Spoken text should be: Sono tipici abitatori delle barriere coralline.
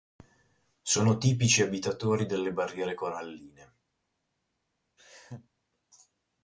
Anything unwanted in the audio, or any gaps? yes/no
yes